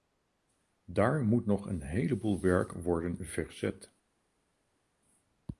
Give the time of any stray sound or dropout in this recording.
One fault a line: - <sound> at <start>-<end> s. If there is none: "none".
none